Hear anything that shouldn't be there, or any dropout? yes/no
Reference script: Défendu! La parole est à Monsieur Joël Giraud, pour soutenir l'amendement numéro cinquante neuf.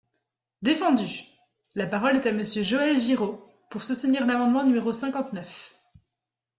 no